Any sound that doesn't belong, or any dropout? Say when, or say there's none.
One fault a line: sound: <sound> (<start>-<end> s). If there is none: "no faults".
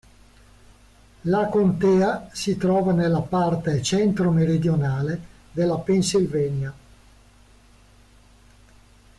no faults